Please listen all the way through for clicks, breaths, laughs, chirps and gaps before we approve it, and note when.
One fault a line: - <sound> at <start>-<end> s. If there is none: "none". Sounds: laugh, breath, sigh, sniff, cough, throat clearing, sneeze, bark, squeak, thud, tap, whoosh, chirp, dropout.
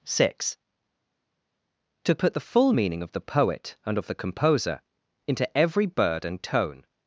none